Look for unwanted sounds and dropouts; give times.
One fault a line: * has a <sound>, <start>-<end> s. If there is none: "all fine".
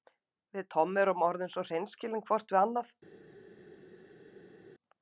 all fine